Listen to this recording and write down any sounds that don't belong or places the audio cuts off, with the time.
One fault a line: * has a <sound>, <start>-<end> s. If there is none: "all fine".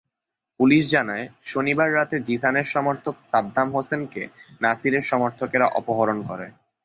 all fine